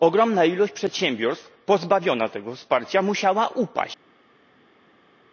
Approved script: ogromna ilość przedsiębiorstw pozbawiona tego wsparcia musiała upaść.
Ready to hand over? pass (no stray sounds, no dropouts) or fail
pass